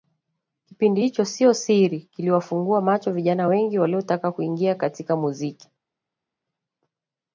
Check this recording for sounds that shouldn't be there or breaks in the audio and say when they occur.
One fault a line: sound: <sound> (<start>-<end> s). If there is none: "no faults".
no faults